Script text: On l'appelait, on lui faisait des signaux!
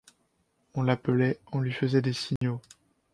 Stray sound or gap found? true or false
true